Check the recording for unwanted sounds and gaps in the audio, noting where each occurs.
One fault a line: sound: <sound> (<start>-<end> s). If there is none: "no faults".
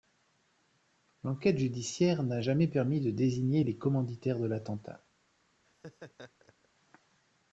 sound: laugh (5.6-6.7 s)